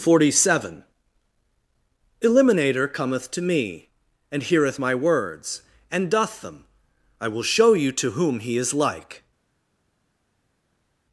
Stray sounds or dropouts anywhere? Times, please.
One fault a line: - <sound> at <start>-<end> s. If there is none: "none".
none